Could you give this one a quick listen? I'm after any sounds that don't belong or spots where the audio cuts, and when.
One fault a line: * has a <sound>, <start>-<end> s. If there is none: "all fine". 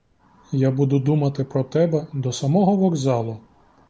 all fine